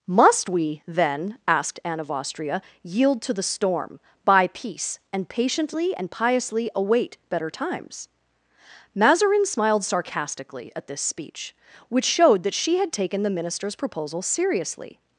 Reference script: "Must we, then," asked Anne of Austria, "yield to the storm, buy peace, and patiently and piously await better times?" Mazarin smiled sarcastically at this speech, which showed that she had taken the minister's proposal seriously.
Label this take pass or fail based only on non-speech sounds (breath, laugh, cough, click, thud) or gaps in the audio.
pass